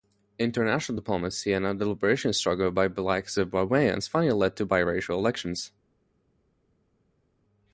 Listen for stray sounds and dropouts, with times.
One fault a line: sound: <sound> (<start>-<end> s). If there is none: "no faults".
no faults